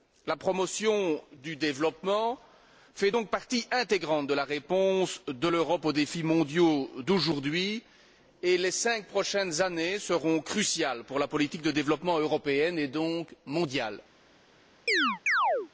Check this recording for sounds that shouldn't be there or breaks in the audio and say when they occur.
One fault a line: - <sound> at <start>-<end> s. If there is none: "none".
- chirp at 14.9-15.7 s